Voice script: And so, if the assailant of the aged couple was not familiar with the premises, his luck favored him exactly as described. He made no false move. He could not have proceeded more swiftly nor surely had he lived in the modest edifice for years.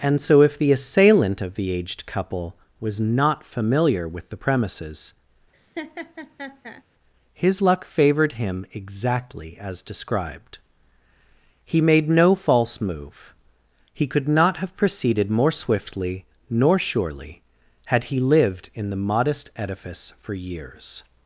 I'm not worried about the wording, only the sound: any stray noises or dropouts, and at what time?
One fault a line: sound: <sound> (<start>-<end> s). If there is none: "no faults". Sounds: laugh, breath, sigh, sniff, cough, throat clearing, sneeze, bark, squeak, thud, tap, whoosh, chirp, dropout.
sound: laugh (5.5-6.8 s)